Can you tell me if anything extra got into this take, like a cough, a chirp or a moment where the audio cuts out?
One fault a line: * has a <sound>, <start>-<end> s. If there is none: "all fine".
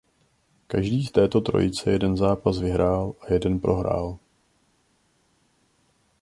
all fine